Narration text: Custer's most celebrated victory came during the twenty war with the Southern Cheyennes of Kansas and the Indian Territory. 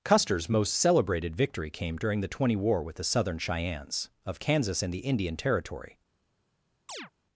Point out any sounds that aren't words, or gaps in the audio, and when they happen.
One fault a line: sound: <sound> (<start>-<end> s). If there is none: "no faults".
sound: chirp (6.9-7.1 s)